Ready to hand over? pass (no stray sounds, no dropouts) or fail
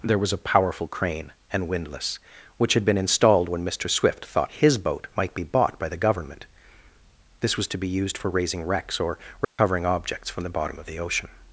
fail